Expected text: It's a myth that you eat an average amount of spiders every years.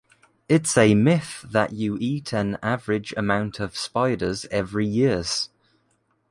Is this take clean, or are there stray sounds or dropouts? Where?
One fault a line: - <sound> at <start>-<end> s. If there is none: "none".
none